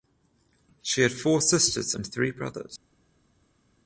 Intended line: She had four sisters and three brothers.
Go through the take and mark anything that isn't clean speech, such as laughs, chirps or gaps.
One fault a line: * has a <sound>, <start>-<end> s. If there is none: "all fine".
all fine